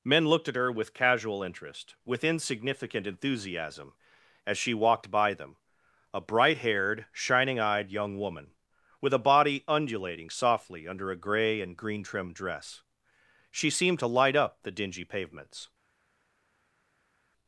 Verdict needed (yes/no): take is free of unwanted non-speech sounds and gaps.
yes